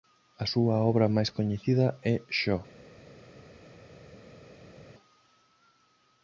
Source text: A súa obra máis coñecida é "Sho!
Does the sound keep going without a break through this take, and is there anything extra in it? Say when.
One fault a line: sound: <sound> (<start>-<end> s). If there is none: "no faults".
no faults